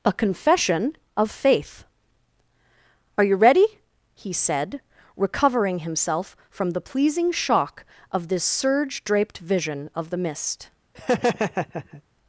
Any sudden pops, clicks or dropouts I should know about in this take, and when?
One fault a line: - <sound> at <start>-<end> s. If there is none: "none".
- laugh at 10.9-12.0 s